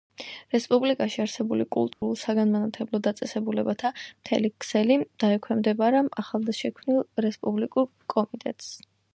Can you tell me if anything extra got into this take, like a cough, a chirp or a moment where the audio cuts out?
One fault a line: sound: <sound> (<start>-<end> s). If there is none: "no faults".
sound: dropout (1.9-2.0 s)